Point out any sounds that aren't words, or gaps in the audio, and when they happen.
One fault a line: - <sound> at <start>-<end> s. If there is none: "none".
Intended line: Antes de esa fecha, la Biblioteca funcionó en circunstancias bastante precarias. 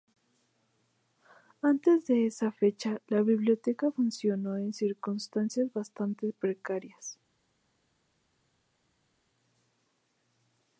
none